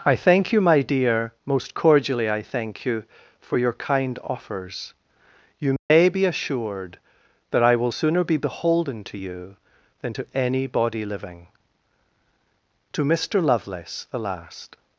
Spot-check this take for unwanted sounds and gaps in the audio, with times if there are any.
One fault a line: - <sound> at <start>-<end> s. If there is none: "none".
- dropout at 5.8-5.9 s